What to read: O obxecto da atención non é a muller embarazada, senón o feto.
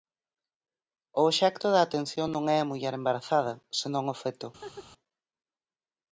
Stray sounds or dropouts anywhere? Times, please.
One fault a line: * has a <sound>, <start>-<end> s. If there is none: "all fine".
* has a laugh, 4.6-4.9 s